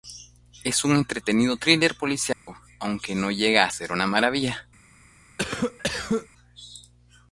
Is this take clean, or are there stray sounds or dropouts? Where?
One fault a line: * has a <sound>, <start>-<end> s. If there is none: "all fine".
* has a dropout, 2.3-2.5 s
* has a cough, 5.4-6.3 s